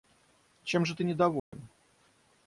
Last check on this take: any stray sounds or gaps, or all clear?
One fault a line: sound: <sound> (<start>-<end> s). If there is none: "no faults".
sound: dropout (1.4-1.5 s)